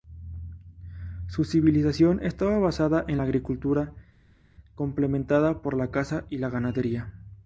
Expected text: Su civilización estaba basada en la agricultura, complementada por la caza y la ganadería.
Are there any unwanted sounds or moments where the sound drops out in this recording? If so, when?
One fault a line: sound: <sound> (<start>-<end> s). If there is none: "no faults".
no faults